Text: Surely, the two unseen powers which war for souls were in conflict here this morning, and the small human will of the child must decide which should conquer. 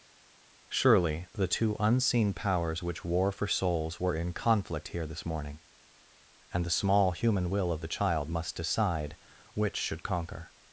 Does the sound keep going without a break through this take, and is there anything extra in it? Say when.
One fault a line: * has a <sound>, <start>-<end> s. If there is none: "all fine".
all fine